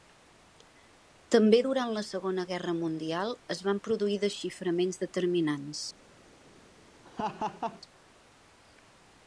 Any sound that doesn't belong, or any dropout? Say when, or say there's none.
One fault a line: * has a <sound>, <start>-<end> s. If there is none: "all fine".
* has a laugh, 7.0-7.8 s